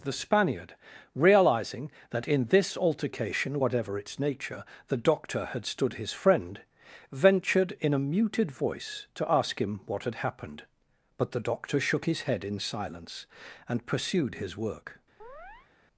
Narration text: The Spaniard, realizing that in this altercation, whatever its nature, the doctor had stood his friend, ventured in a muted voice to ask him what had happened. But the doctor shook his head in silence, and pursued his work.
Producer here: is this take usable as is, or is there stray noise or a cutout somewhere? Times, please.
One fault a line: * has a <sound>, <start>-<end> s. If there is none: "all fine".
* has a chirp, 15.2-15.7 s